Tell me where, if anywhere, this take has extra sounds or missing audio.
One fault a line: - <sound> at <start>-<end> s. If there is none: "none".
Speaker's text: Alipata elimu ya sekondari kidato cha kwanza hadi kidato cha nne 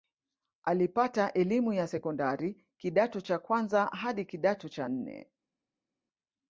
none